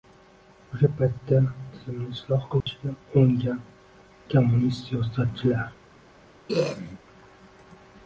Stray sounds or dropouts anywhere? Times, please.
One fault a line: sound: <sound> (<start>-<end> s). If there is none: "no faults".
sound: dropout (2.6-2.7 s)
sound: throat clearing (6.5-7.0 s)